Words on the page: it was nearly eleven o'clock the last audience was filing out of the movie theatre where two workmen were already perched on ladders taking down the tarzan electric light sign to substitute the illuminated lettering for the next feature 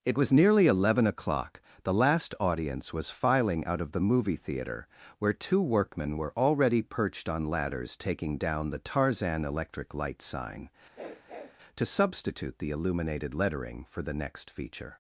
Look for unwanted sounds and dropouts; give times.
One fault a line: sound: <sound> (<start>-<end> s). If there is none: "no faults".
sound: sniff (10.9-11.6 s)